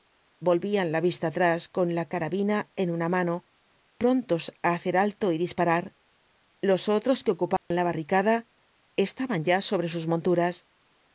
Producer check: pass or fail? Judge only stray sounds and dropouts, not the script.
fail